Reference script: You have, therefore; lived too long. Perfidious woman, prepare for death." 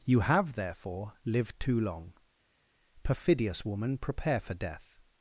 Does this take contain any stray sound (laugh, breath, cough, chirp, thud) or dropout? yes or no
no